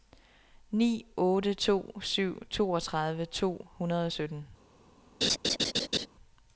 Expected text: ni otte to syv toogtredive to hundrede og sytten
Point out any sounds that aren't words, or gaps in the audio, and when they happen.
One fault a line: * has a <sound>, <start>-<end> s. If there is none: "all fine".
* has a laugh, 5.2-6.1 s